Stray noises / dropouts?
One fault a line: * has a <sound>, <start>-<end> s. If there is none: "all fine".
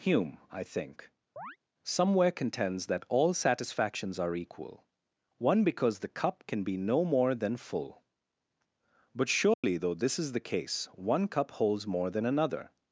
* has a chirp, 1.4-1.6 s
* has a dropout, 9.5-9.6 s